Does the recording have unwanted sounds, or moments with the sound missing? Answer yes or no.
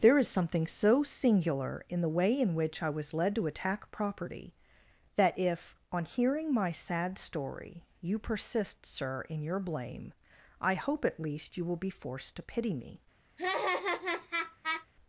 yes